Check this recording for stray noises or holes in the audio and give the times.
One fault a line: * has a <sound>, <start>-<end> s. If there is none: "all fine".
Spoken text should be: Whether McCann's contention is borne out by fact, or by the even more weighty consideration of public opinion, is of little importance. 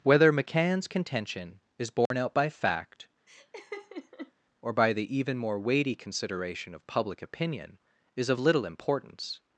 * has a dropout, 2.1-2.1 s
* has a laugh, 3.3-4.3 s